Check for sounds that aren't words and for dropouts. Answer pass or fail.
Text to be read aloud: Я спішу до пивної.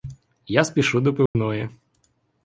fail